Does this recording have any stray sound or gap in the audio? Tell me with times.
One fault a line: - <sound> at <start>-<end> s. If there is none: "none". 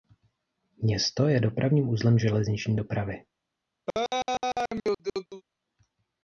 - laugh at 3.9-5.4 s